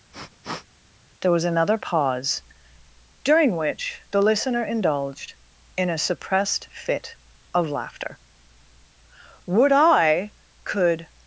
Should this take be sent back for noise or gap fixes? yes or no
yes